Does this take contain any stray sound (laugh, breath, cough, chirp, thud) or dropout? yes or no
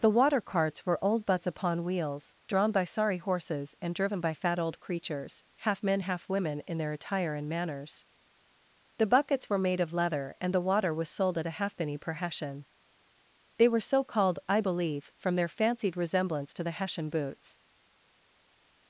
no